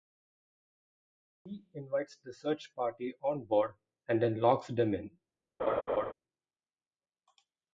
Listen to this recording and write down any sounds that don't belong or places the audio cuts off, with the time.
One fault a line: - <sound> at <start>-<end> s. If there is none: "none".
- laugh at 5.6-6.1 s